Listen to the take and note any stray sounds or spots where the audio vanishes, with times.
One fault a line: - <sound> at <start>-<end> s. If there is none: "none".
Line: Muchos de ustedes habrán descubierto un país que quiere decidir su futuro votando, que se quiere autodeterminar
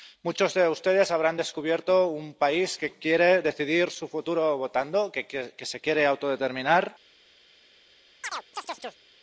- chirp at 8.2-9.0 s